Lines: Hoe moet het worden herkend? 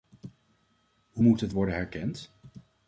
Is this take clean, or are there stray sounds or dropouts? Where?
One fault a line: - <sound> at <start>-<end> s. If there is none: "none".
none